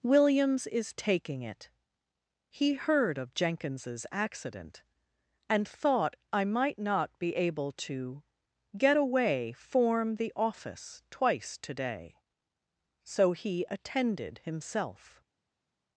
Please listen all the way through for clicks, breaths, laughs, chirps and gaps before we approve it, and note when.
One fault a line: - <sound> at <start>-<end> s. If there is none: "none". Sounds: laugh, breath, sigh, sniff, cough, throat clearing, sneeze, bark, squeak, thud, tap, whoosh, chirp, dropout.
none